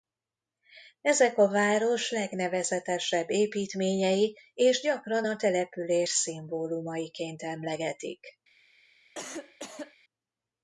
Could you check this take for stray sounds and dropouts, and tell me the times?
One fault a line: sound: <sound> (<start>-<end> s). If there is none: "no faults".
sound: cough (9.1-10.0 s)